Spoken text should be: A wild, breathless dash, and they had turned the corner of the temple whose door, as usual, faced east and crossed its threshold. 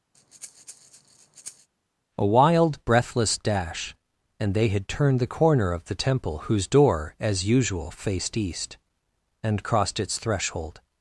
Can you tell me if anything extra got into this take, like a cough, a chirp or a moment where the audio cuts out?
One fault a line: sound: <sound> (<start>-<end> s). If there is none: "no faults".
sound: breath (0.1-1.7 s)